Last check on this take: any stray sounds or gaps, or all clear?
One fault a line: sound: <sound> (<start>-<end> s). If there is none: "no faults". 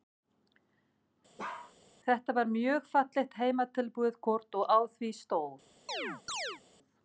sound: bark (1.4-1.7 s)
sound: chirp (5.9-6.6 s)